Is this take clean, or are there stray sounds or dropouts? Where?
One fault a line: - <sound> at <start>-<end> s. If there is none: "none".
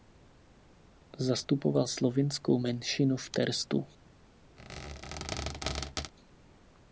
- squeak at 4.6-6.1 s